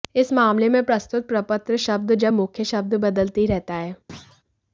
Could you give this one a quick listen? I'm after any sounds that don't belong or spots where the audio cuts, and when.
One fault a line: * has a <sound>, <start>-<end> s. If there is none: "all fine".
* has a thud, 4.1-4.4 s